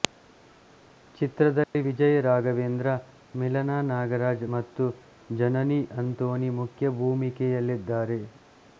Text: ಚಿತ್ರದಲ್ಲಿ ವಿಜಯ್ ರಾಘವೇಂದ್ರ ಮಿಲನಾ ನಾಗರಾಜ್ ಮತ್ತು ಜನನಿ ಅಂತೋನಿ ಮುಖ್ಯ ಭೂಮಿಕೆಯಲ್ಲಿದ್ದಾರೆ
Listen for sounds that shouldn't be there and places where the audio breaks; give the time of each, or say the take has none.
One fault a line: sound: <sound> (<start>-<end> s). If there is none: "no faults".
sound: dropout (1.6-1.7 s)